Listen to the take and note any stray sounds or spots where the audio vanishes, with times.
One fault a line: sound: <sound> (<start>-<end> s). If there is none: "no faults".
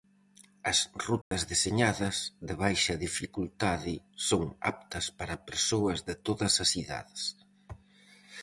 sound: dropout (1.2-1.3 s)